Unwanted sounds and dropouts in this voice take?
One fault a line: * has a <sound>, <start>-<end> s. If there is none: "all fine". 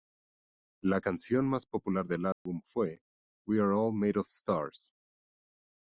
* has a dropout, 2.3-2.5 s